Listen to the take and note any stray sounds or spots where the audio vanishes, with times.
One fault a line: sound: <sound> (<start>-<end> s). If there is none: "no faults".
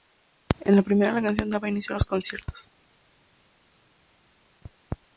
no faults